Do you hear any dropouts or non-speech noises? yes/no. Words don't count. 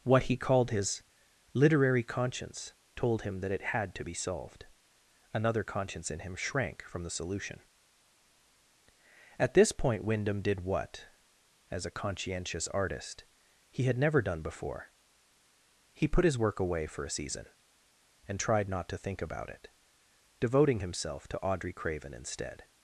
no